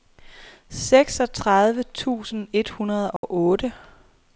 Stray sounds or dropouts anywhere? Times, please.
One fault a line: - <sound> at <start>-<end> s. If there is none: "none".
- dropout at 3.2-3.2 s